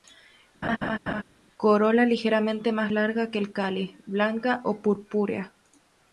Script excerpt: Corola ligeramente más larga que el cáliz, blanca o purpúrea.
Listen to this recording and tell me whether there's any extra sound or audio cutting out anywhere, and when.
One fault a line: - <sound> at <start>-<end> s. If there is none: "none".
- laugh at 0.6-1.2 s